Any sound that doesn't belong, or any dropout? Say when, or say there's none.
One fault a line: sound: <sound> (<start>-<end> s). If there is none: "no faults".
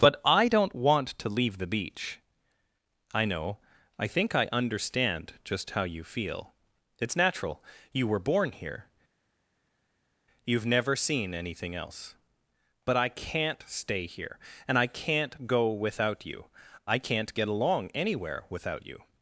no faults